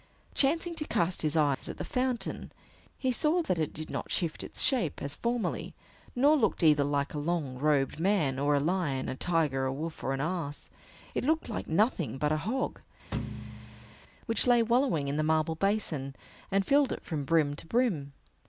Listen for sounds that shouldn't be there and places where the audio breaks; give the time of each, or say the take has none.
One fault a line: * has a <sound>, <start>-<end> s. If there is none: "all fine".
* has a dropout, 1.5-1.6 s
* has a thud, 13.1-14.0 s